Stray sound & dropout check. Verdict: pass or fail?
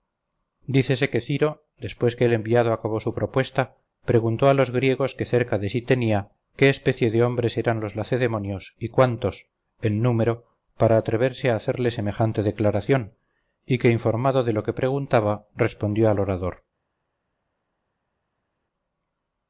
pass